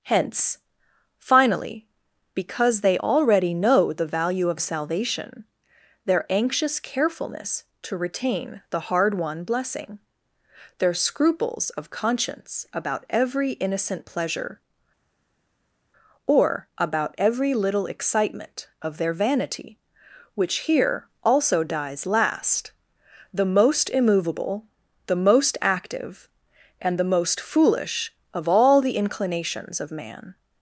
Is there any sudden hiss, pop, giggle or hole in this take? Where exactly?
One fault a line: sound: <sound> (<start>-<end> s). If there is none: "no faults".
no faults